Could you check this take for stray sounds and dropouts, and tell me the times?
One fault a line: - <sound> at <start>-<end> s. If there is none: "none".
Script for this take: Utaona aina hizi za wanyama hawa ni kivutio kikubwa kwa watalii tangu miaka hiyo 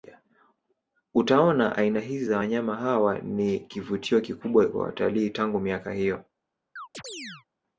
- chirp at 6.8-7.5 s